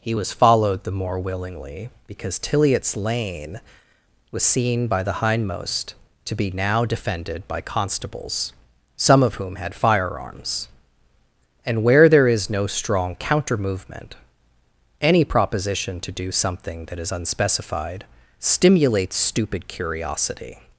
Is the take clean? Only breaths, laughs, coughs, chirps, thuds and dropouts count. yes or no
yes